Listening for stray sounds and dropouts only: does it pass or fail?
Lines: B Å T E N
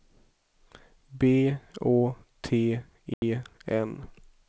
fail